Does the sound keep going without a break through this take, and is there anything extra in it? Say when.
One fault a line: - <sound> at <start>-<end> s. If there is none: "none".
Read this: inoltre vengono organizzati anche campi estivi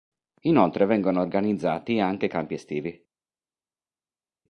none